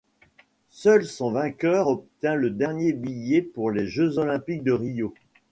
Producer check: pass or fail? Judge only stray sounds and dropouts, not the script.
pass